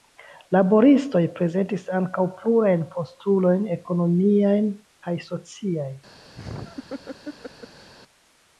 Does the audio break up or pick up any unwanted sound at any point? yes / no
yes